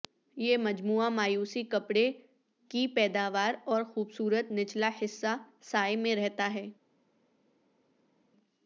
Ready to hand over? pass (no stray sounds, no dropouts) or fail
pass